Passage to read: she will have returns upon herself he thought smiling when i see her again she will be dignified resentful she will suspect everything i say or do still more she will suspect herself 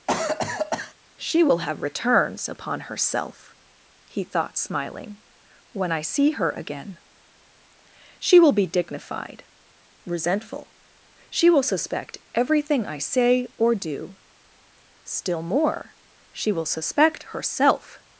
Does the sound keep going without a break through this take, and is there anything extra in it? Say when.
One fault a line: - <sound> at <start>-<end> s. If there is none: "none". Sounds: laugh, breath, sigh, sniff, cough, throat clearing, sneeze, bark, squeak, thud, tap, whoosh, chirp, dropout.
- cough at 0.1-0.9 s